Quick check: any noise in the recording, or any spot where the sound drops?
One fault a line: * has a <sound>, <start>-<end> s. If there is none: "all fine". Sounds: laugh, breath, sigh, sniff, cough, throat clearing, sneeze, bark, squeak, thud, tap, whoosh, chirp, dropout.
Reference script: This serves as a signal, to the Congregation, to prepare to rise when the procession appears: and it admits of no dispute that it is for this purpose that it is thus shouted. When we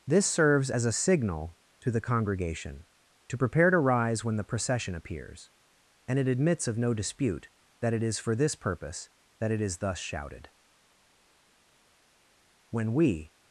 all fine